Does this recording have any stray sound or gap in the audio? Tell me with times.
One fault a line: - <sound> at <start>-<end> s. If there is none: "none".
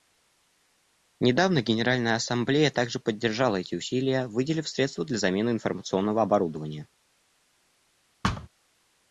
- thud at 8.2-8.5 s